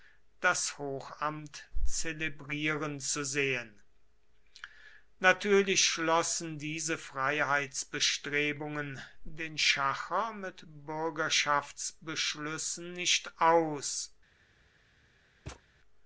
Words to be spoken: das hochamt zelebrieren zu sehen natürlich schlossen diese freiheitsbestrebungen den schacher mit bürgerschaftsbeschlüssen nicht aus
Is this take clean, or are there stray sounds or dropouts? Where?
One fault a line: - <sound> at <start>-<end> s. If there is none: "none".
- thud at 15.5-15.6 s